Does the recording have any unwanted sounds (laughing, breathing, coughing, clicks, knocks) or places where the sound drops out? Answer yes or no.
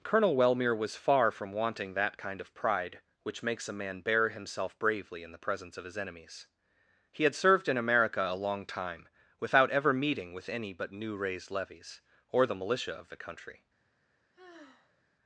yes